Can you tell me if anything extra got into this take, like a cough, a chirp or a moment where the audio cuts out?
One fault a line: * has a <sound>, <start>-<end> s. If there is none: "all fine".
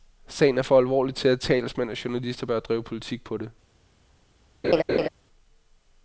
* has a laugh, 4.6-5.1 s